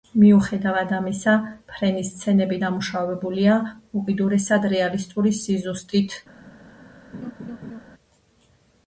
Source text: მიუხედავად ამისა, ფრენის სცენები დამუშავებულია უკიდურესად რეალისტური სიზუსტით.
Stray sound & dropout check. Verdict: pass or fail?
fail